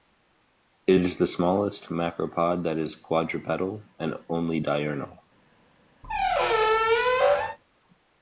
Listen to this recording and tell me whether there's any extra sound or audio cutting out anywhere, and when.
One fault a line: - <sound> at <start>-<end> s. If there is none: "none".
- squeak at 6.0-7.6 s